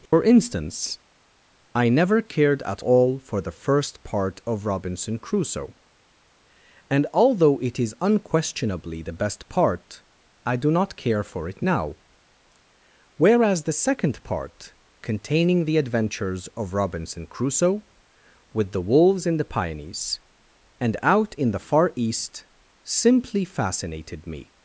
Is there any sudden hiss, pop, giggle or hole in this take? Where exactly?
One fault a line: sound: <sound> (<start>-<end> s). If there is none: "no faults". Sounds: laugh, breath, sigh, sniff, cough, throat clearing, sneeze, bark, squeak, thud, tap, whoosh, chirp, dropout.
sound: dropout (0.1-0.1 s)